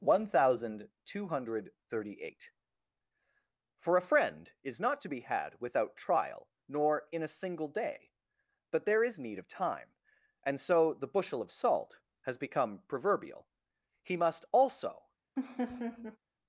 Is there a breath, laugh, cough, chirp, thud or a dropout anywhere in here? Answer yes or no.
yes